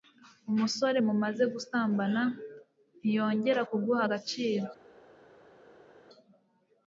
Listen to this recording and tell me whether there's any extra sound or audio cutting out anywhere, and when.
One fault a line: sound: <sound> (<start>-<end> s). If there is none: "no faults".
no faults